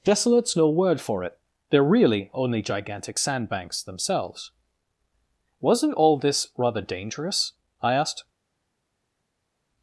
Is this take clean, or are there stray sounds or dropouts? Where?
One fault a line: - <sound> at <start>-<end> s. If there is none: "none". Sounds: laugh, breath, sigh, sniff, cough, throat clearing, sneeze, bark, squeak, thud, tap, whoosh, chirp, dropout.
none